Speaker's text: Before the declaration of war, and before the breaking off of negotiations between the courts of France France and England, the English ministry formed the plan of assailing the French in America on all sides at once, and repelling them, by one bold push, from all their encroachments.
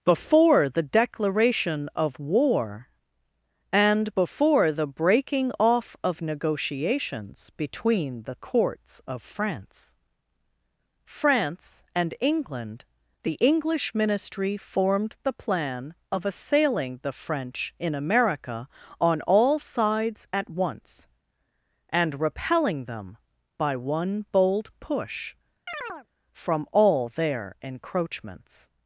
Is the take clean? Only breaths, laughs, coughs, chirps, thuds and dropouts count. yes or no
no